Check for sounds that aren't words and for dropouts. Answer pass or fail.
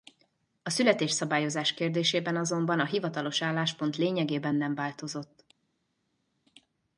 pass